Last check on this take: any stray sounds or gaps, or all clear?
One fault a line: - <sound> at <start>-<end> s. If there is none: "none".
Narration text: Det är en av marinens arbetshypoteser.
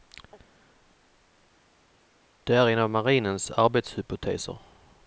none